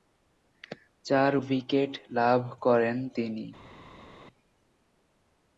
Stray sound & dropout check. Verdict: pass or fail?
pass